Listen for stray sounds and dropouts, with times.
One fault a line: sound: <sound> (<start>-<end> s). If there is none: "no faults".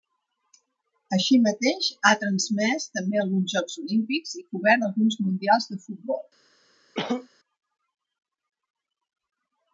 sound: cough (6.9-7.3 s)